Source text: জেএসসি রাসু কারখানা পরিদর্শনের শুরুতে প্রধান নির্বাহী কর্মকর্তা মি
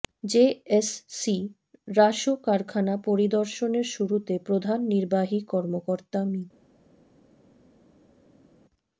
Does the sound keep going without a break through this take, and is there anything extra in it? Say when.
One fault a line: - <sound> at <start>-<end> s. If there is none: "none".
none